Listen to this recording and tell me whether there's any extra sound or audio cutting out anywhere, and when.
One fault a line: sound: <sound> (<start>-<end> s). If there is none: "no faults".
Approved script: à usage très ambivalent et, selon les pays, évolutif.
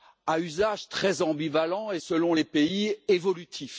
no faults